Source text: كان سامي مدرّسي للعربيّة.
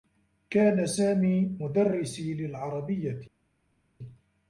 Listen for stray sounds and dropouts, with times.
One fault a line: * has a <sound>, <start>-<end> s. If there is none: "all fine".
all fine